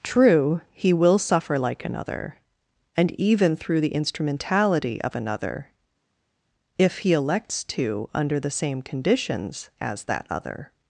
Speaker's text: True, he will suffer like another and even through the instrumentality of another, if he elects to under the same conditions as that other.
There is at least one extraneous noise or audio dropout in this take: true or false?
false